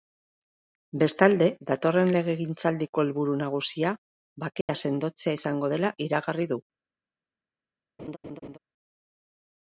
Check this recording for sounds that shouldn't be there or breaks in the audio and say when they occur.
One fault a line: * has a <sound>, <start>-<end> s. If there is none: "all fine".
* has a dropout, 4.6-4.7 s
* has a laugh, 8.0-8.6 s